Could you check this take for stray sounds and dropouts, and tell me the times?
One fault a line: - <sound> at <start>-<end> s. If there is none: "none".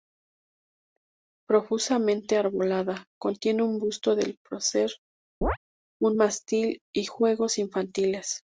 - chirp at 5.4-5.6 s